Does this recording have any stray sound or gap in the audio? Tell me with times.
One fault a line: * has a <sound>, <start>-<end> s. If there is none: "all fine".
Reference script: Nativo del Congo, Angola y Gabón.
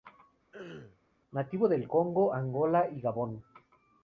* has a throat clearing, 0.5-1.0 s